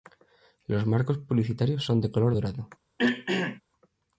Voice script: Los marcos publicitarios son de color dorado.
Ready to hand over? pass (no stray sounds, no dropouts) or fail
fail